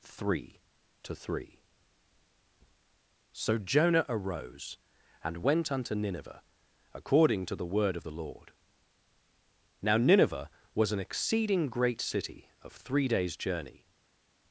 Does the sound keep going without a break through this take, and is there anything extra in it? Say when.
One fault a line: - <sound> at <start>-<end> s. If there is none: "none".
none